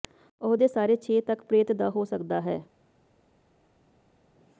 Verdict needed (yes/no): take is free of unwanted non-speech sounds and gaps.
yes